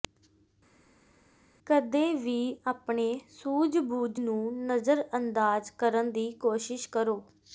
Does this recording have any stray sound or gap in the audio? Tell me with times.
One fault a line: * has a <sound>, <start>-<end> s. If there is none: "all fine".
all fine